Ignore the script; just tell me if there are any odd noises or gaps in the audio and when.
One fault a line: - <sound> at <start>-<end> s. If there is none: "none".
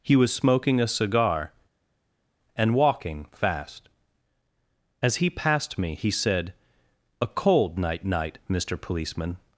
none